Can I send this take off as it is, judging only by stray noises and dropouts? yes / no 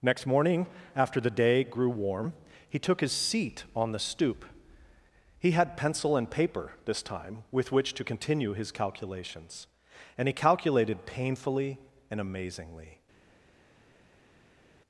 yes